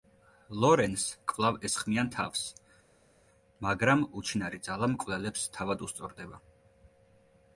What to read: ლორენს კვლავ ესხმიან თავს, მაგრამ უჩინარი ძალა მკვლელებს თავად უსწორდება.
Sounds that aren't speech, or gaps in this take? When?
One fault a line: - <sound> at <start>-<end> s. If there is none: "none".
none